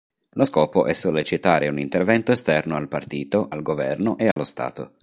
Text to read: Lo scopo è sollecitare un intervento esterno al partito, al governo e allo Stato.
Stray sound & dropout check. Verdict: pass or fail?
fail